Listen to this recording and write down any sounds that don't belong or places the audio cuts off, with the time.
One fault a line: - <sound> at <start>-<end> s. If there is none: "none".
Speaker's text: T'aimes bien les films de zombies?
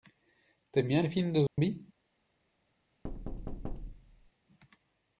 - dropout at 1.5-1.6 s
- thud at 3.0-4.3 s